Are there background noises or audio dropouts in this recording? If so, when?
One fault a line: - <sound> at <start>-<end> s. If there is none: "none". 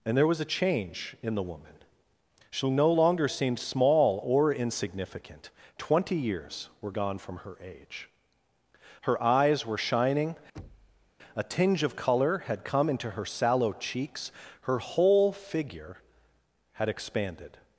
- thud at 10.5-11.1 s